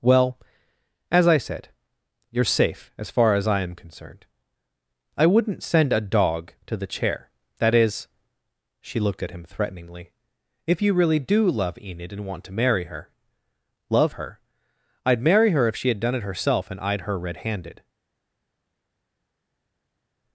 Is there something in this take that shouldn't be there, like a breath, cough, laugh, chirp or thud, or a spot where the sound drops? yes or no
no